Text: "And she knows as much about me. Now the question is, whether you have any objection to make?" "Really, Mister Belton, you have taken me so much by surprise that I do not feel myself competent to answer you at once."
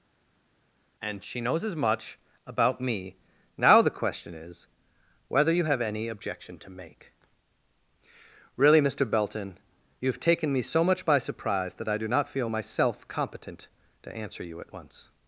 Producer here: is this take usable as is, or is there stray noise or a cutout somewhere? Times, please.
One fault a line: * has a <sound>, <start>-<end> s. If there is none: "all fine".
all fine